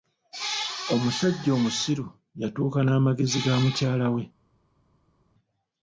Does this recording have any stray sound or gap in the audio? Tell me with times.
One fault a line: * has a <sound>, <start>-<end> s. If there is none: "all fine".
all fine